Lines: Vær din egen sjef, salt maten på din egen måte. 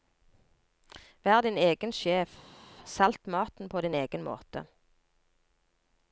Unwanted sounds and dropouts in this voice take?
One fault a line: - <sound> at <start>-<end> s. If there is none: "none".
none